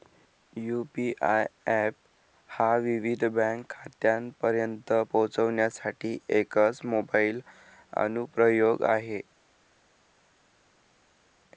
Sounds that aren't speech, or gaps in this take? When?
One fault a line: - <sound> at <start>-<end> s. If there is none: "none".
none